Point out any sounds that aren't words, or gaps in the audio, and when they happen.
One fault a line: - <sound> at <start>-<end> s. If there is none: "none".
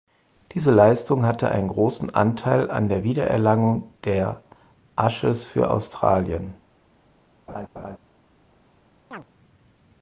- laugh at 7.5-8.0 s
- chirp at 9.1-9.3 s